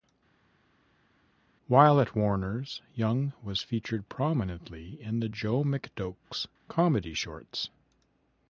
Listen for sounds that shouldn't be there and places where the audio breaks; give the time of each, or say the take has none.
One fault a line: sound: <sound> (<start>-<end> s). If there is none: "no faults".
no faults